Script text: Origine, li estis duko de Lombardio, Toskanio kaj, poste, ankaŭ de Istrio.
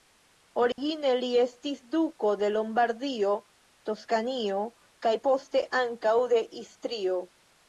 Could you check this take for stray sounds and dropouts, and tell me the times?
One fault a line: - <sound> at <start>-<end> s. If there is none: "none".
- dropout at 0.7-0.8 s